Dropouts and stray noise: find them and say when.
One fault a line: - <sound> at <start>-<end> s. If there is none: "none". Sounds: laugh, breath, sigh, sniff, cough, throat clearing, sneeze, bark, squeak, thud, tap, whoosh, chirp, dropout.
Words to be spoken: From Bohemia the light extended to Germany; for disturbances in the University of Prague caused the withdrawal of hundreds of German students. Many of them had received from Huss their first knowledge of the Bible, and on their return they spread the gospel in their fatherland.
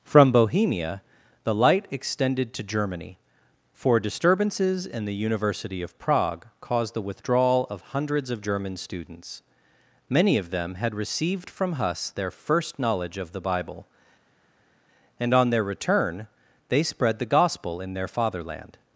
none